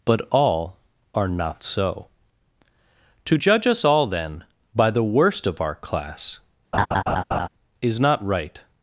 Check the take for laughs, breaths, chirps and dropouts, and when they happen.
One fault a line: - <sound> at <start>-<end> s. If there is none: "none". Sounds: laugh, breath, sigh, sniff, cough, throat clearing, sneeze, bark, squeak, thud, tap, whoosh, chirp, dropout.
- laugh at 6.7-7.5 s